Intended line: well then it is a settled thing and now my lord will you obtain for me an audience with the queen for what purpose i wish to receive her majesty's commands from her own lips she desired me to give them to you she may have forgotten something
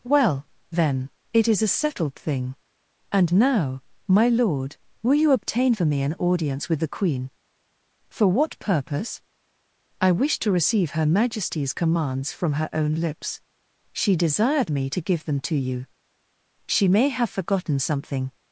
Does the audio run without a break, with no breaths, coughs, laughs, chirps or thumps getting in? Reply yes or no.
yes